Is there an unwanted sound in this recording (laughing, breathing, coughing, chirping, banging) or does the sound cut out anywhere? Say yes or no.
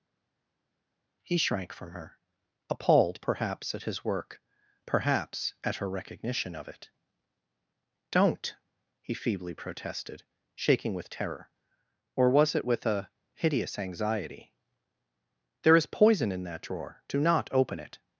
no